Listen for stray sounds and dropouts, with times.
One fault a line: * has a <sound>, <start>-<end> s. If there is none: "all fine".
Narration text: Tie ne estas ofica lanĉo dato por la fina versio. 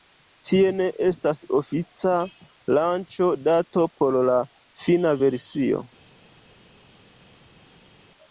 all fine